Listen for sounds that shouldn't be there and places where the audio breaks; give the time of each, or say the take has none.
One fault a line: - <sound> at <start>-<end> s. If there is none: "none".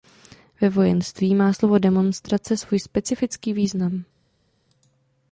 none